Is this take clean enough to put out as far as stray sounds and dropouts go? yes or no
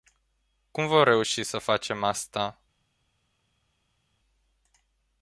yes